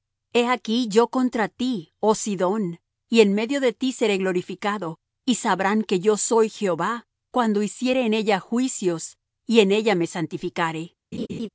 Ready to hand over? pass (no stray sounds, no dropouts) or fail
fail